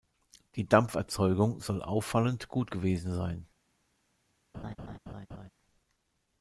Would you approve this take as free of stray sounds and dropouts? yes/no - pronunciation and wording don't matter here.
no